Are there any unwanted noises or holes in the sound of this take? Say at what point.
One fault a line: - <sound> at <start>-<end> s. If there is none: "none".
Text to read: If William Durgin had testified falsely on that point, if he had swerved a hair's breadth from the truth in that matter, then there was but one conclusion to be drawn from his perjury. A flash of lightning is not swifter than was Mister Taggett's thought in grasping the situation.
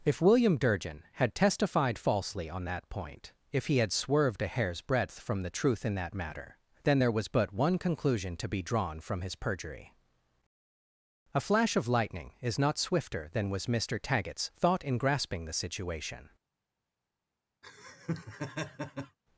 - laugh at 17.6-19.2 s